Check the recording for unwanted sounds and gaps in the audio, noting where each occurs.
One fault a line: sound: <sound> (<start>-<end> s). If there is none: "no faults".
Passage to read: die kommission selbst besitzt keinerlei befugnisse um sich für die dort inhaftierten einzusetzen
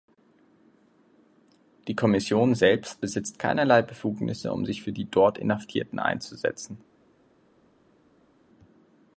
no faults